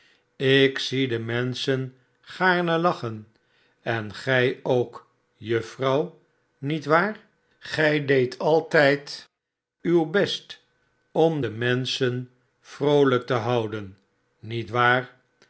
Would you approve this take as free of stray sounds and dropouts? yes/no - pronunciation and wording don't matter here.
yes